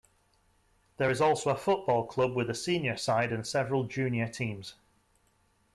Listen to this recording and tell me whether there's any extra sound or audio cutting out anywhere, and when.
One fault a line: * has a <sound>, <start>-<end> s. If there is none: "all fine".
all fine